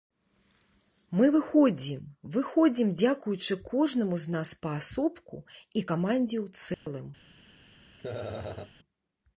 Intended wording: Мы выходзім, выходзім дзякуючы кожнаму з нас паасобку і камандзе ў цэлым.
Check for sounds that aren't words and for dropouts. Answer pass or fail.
fail